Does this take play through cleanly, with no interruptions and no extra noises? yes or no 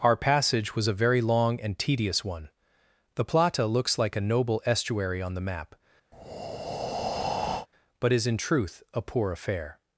no